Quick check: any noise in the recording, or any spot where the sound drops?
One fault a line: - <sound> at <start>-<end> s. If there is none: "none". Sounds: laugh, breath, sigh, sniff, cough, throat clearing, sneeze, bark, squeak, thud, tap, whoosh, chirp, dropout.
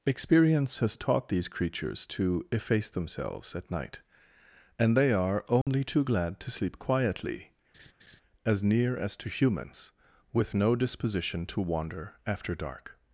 - dropout at 5.6-5.7 s
- laugh at 7.7-8.2 s